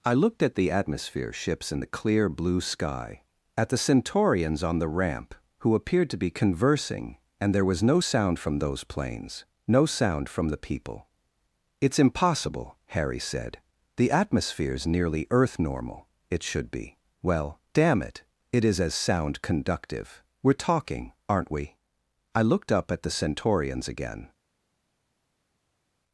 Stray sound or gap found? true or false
false